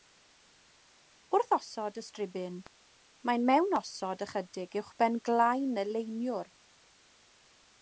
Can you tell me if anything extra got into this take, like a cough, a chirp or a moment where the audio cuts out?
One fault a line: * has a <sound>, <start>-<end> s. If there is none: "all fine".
all fine